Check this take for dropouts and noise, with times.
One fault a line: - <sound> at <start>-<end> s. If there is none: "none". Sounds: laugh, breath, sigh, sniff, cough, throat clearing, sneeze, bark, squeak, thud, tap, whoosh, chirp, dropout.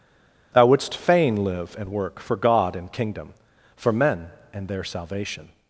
none